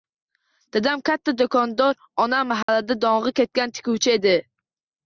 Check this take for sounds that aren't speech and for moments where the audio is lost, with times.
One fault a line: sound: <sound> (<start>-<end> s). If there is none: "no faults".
sound: dropout (2.6-2.7 s)